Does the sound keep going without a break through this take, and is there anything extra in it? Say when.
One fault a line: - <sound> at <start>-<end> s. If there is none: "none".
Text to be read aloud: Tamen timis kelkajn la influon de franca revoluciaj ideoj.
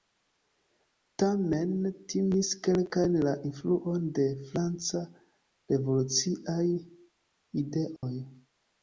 - dropout at 8.0-8.0 s